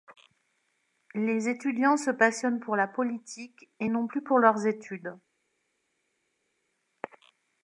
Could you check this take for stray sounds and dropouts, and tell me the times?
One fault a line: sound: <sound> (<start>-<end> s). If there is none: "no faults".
no faults